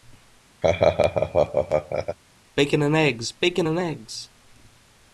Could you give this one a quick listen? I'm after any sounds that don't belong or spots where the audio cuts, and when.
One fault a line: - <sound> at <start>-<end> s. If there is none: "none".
- laugh at 0.6-2.2 s